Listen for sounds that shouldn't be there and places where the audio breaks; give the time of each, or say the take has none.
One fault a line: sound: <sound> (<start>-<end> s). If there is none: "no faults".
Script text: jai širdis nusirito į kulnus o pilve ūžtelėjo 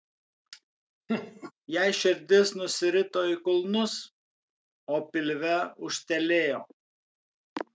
sound: laugh (1.1-1.5 s)